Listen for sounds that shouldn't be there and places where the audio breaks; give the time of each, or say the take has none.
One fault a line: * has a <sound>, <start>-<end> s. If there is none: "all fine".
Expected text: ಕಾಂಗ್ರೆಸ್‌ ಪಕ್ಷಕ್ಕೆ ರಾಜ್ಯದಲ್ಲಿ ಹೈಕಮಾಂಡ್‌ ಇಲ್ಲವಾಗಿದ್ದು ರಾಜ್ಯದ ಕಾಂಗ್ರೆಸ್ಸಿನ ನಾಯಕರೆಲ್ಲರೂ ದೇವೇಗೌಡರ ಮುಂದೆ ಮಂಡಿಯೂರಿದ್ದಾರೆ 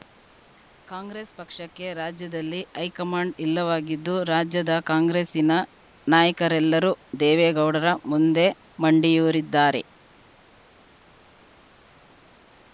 all fine